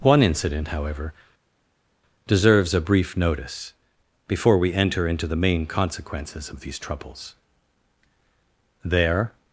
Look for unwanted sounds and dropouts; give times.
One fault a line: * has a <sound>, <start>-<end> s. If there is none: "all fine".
all fine